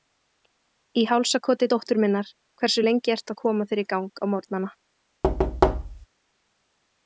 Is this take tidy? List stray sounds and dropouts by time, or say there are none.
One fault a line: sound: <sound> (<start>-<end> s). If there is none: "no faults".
sound: thud (5.2-6.1 s)